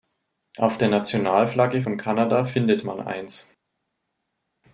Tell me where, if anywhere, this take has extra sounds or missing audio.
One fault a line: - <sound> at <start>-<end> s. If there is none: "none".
none